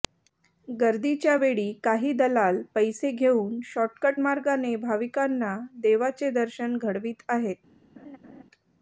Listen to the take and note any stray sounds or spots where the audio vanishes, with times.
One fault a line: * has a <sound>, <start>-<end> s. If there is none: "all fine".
* has a laugh, 8.0-8.4 s